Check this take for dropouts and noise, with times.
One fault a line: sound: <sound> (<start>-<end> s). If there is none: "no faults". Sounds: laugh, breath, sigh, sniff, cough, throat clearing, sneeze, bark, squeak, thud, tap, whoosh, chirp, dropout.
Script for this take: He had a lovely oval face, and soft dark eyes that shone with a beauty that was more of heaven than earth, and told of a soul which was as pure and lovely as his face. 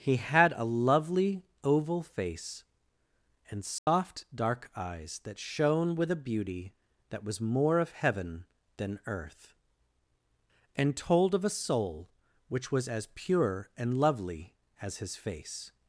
sound: dropout (3.8-3.9 s)